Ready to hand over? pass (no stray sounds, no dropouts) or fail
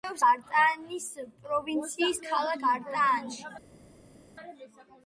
pass